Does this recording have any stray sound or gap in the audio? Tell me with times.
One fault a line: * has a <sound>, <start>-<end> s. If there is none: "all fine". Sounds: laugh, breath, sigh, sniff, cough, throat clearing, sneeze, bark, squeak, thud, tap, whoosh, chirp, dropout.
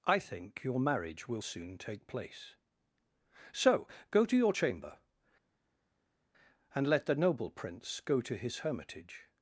all fine